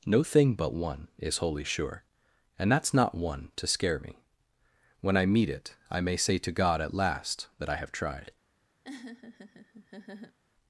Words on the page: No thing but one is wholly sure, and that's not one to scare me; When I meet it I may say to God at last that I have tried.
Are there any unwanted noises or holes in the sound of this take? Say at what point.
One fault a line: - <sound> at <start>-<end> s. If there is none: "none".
- laugh at 8.8-10.4 s